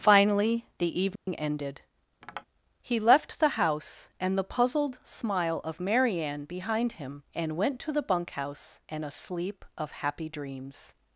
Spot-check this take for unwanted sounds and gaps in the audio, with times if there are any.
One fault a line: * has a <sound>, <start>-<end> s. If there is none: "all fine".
* has a dropout, 1.2-1.3 s
* has a tap, 2.2-2.5 s